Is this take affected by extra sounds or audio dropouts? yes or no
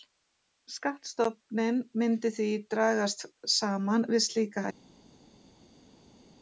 no